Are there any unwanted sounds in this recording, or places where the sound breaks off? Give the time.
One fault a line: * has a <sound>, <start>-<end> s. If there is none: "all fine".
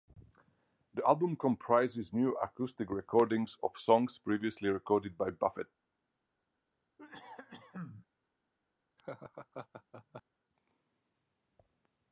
* has a cough, 7.0-8.1 s
* has a laugh, 9.0-10.2 s